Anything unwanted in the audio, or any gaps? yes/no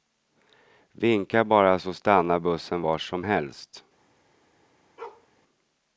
yes